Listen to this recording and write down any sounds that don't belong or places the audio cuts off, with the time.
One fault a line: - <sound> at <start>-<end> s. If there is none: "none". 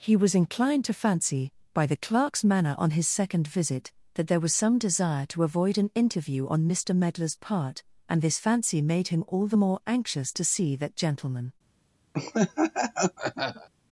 - laugh at 12.1-13.7 s